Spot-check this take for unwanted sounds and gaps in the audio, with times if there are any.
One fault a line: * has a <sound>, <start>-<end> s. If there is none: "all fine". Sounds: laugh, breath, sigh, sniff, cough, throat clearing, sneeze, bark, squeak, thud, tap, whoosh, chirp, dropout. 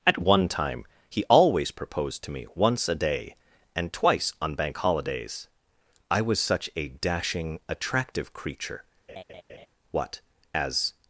* has a laugh, 9.1-9.7 s